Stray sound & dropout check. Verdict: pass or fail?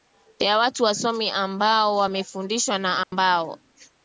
fail